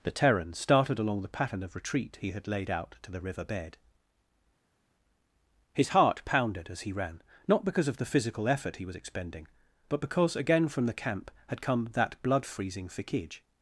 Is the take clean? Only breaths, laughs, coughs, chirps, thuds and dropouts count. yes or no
yes